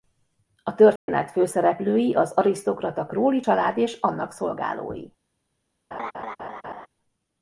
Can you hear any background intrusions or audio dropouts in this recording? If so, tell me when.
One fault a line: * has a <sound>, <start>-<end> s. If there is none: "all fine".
* has a dropout, 1.0-1.1 s
* has a laugh, 5.9-6.9 s